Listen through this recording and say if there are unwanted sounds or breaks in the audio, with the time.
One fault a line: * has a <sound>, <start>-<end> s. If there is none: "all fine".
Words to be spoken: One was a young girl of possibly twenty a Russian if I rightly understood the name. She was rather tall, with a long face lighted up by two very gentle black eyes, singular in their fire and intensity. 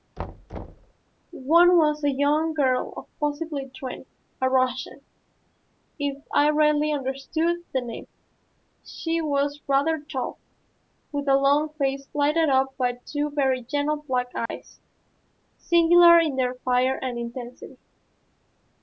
* has a thud, 0.2-0.9 s
* has a dropout, 14.5-14.5 s